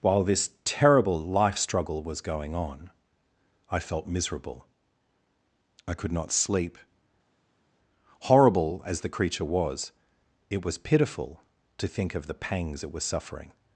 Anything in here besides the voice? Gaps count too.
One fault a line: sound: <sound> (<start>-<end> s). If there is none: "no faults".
no faults